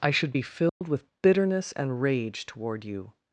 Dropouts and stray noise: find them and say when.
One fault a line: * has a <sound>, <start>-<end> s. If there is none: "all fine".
* has a dropout, 0.7-0.8 s